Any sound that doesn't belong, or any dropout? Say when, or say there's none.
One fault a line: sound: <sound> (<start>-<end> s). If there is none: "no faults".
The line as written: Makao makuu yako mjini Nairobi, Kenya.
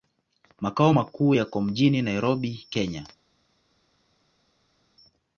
no faults